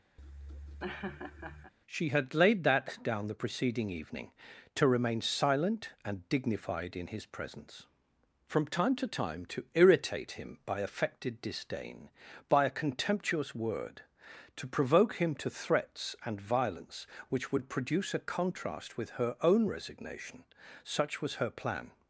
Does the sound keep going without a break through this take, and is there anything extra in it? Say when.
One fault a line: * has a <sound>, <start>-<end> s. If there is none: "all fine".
* has a laugh, 0.2-1.7 s